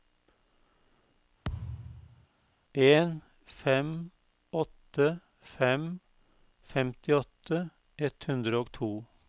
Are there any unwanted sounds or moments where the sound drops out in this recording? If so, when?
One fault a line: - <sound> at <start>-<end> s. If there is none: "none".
- thud at 1.4-2.3 s